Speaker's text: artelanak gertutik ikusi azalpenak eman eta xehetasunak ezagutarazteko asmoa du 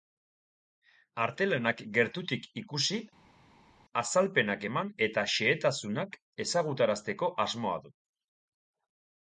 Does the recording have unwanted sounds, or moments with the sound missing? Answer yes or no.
no